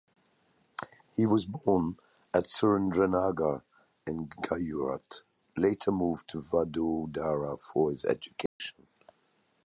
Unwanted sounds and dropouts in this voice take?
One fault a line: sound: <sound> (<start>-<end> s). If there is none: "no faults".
sound: dropout (8.5-8.6 s)